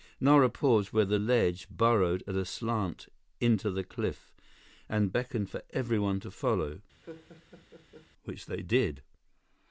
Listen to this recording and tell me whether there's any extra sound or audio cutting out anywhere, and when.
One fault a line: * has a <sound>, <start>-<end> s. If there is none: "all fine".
* has a laugh, 7.0-8.1 s